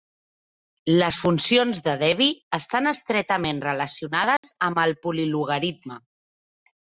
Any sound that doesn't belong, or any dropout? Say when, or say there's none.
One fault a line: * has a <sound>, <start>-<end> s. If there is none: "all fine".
* has a dropout, 4.4-4.4 s